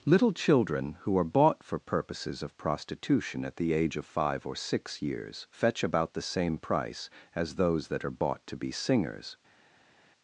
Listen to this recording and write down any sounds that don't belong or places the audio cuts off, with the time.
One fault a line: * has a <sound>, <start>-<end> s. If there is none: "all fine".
all fine